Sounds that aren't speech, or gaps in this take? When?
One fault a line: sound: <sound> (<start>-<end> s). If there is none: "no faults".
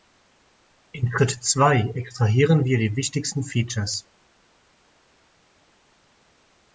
no faults